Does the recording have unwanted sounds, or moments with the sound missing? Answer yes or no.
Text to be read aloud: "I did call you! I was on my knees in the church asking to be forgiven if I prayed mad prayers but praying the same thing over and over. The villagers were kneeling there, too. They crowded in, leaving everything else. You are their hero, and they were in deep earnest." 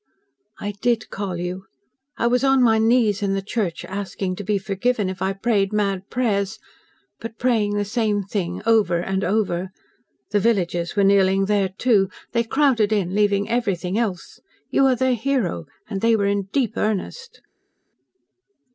no